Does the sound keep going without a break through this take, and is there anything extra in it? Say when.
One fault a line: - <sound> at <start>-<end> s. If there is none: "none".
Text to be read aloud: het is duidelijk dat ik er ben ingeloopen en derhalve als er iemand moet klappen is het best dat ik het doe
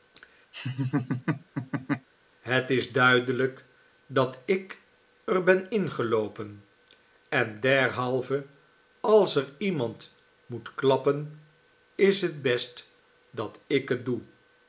- laugh at 0.5-2.1 s